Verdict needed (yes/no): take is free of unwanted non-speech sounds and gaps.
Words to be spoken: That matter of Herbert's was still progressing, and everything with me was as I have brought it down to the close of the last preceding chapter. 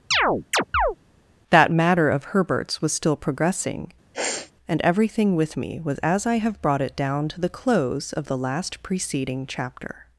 no